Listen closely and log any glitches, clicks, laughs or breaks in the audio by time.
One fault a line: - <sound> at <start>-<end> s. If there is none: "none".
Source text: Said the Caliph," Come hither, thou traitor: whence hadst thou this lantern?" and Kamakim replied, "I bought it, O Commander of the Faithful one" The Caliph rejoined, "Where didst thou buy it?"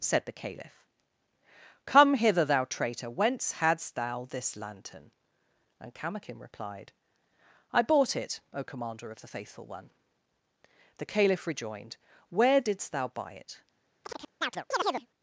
- chirp at 14.0-15.1 s